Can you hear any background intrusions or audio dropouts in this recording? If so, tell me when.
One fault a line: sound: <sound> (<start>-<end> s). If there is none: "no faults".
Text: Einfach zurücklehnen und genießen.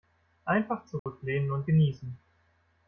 sound: dropout (1.0-1.1 s)